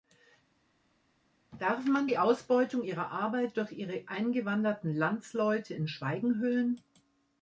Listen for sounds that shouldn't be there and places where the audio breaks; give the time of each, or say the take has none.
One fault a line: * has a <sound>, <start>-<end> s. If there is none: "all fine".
all fine